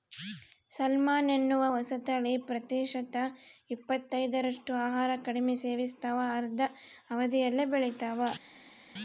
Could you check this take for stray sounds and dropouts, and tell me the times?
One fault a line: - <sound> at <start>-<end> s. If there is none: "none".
none